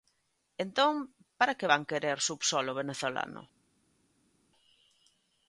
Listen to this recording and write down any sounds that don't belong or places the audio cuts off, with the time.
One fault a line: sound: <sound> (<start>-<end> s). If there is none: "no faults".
no faults